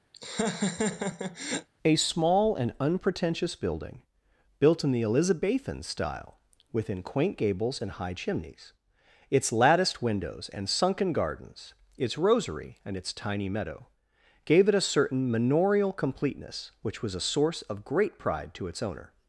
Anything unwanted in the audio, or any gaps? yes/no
yes